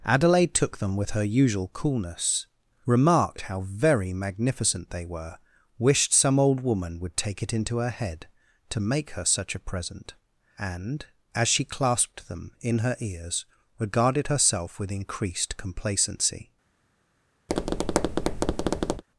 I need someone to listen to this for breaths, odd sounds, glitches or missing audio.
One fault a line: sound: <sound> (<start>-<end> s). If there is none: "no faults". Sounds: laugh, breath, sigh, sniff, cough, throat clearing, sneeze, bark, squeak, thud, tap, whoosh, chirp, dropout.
sound: tap (17.5-19.0 s)